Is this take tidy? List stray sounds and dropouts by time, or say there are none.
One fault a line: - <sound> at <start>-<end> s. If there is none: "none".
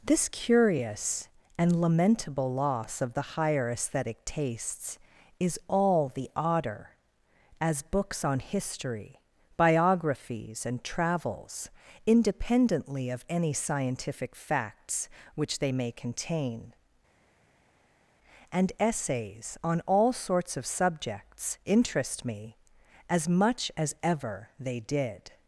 none